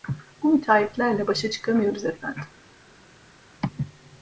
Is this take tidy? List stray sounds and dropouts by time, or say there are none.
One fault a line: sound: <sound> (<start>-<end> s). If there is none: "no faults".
no faults